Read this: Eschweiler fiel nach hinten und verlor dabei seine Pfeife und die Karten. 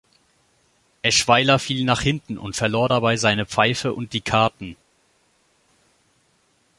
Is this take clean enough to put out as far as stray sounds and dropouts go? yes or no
yes